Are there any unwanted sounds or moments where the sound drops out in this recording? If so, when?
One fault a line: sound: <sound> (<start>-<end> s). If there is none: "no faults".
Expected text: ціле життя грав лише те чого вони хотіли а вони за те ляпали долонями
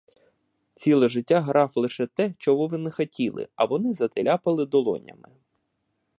no faults